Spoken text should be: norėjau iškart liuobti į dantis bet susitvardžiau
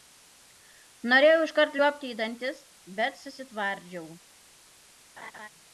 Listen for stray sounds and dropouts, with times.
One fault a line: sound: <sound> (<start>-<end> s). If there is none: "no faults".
sound: laugh (5.2-5.5 s)